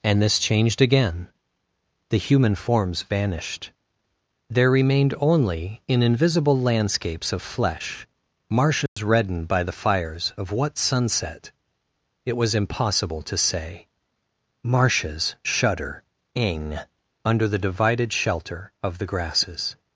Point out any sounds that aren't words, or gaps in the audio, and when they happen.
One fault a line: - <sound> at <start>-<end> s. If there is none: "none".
- dropout at 8.9-9.0 s